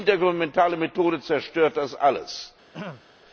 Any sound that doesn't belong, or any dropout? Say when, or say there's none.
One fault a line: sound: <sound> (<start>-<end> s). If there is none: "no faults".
sound: throat clearing (2.7-3.0 s)